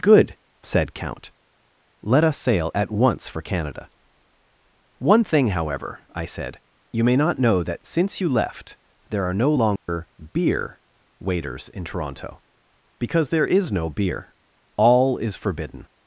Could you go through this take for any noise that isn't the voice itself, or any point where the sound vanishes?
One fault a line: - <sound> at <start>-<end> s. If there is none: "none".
- dropout at 9.8-9.9 s